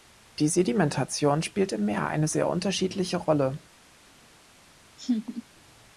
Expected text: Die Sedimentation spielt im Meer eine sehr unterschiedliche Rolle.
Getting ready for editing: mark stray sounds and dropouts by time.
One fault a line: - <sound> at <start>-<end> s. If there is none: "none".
- laugh at 5.0-5.4 s